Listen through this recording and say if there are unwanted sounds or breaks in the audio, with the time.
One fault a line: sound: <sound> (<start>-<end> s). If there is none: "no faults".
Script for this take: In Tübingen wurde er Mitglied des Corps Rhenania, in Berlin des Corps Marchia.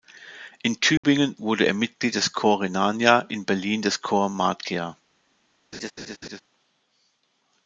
sound: dropout (1.0-1.0 s)
sound: laugh (5.7-6.4 s)